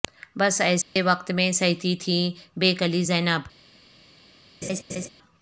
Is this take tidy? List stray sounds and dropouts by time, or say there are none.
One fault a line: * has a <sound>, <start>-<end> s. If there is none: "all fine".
* has a dropout, 0.8-1.0 s
* has a laugh, 4.6-5.1 s